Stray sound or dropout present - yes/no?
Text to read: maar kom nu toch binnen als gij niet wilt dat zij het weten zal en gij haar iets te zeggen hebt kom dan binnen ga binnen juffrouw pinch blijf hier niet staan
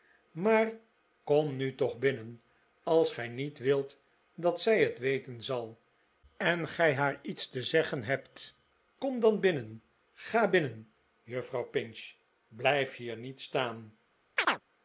yes